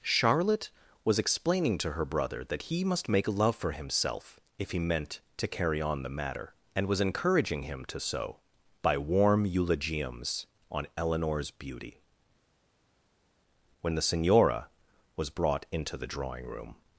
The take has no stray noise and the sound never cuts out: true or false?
true